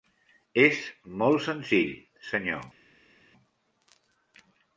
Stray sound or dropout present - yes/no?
no